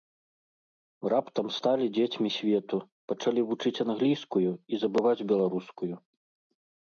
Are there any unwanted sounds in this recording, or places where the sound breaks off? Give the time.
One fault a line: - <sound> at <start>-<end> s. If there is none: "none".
none